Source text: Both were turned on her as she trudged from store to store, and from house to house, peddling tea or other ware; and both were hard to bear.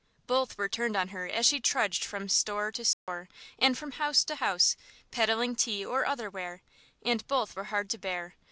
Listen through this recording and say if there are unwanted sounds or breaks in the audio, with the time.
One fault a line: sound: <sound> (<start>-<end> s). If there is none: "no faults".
sound: dropout (2.9-3.1 s)